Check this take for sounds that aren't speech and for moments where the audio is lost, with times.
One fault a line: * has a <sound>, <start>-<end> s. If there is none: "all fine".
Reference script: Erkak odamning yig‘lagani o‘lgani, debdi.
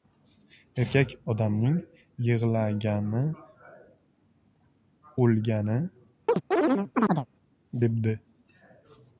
* has a chirp, 6.3-7.3 s